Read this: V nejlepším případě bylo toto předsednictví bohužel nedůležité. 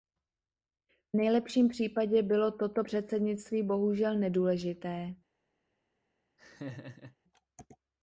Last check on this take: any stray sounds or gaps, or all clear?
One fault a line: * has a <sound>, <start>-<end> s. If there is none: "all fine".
* has a laugh, 6.4-7.2 s